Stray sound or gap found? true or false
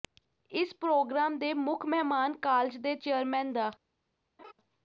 true